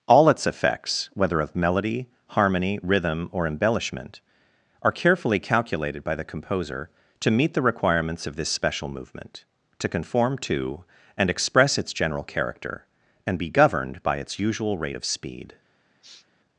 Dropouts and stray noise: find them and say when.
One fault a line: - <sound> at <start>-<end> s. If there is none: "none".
- sniff at 16.0-16.3 s